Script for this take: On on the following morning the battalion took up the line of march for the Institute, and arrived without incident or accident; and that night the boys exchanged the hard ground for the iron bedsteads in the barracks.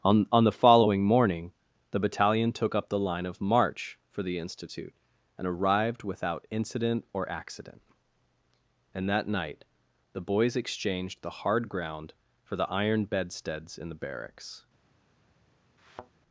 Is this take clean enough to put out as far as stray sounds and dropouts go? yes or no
no